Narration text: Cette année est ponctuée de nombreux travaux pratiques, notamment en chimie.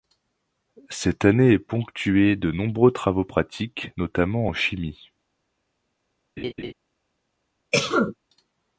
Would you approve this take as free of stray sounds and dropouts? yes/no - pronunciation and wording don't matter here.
no